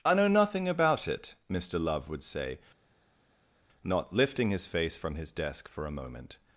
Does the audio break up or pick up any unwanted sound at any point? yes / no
no